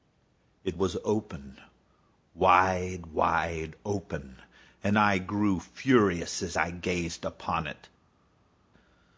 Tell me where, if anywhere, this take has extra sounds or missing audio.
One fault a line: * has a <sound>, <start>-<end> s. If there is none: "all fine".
all fine